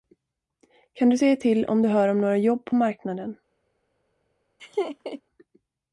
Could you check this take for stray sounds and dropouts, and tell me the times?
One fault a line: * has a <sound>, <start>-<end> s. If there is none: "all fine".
* has a laugh, 4.6-5.2 s